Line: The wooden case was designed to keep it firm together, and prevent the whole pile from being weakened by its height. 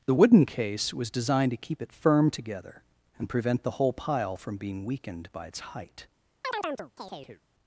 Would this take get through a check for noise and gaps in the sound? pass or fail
fail